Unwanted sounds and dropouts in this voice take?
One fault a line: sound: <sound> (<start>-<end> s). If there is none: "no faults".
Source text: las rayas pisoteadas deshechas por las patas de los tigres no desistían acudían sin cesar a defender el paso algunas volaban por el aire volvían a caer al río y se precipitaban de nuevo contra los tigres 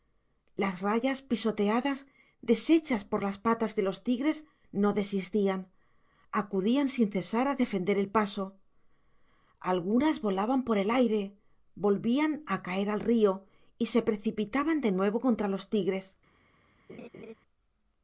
sound: laugh (16.9-17.3 s)